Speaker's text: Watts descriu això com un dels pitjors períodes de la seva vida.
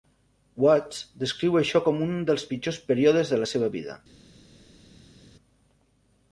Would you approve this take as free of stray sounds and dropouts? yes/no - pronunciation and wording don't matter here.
yes